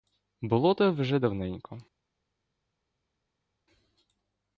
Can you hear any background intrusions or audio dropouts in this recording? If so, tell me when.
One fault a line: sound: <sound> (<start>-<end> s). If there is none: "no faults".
no faults